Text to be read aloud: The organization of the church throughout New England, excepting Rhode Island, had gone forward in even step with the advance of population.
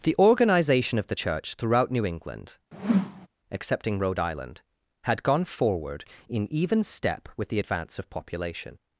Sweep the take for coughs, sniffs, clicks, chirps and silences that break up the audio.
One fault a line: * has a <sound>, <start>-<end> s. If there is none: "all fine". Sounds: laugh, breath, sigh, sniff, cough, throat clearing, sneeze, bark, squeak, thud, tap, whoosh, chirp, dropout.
* has a whoosh, 2.7-3.3 s